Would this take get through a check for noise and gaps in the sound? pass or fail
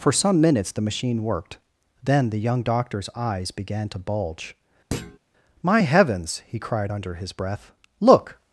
fail